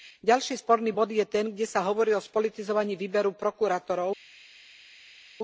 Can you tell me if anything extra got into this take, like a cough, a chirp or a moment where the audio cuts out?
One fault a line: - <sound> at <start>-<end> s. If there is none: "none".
none